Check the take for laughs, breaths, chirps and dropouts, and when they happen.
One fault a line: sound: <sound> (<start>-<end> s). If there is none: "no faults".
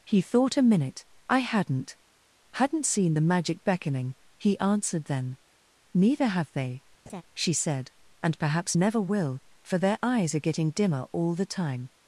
sound: laugh (7.1-7.2 s)